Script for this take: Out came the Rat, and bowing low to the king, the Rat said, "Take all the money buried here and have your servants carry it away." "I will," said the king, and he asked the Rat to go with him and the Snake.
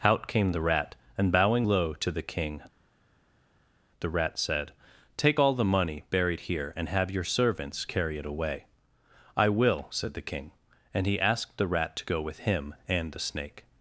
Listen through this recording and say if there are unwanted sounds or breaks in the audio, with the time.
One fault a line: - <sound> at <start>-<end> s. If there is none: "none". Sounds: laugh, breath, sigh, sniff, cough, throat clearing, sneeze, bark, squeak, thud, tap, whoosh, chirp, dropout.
none